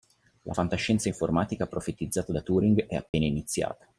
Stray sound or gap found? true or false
true